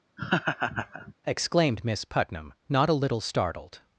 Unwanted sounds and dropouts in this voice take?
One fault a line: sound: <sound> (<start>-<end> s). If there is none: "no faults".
sound: laugh (0.2-1.1 s)